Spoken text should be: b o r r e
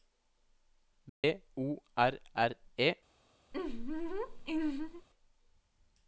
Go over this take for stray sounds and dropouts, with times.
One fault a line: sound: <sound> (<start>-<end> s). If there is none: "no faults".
sound: dropout (1.1-1.2 s)
sound: laugh (3.5-5.1 s)